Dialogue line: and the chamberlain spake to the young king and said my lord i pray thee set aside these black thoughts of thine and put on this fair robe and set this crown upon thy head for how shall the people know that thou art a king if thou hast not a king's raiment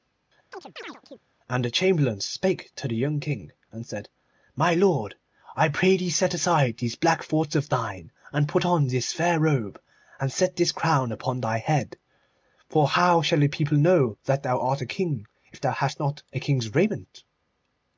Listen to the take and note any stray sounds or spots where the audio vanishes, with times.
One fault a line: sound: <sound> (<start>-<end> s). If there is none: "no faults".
sound: chirp (0.5-1.2 s)